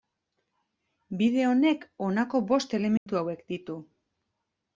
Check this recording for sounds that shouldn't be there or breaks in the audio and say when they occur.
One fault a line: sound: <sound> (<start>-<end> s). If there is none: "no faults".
sound: dropout (3.0-3.1 s)